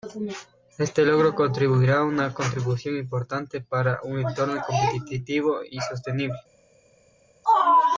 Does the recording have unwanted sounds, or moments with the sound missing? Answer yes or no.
no